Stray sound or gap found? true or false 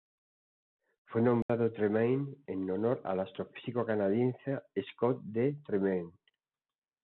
true